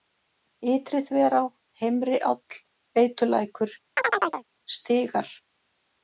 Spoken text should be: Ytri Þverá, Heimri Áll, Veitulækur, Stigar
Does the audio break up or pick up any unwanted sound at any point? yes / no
yes